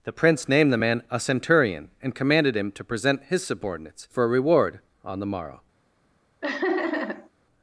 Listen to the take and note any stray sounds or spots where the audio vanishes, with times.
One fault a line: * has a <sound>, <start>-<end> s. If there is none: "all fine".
* has a laugh, 6.4-7.3 s